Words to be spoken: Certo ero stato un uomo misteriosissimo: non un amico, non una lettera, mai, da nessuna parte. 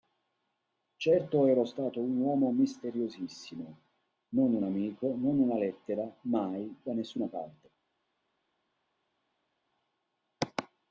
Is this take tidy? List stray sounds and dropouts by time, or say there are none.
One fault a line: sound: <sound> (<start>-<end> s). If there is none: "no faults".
no faults